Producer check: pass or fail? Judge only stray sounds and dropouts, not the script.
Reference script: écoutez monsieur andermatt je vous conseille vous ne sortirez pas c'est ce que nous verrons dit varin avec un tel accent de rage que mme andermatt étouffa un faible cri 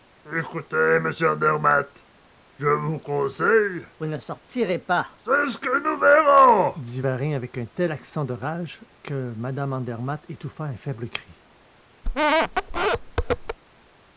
fail